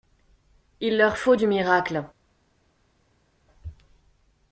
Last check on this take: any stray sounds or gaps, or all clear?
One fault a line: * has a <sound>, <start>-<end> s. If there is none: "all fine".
all fine